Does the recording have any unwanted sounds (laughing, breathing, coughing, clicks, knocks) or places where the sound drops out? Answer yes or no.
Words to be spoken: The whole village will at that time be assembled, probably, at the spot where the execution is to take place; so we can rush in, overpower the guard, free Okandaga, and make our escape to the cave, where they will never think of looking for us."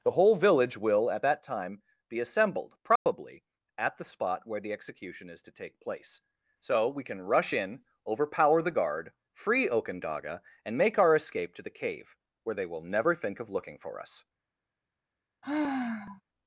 yes